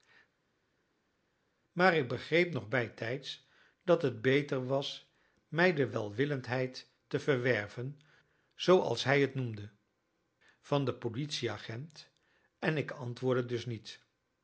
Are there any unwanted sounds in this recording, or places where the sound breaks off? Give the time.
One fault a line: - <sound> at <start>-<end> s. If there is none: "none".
none